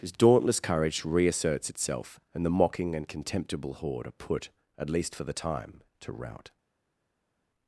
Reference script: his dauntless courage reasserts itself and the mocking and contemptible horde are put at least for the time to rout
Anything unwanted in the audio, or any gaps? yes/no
no